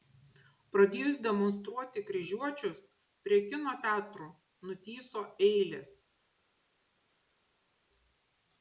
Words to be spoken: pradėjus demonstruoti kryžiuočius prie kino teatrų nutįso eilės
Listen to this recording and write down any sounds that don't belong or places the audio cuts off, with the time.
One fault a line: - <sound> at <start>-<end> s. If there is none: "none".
none